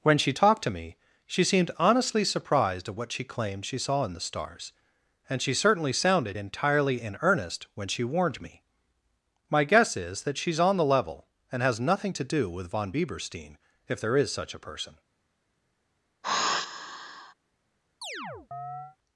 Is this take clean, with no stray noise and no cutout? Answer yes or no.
no